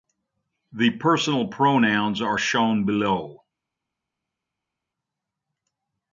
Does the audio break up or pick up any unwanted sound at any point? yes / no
no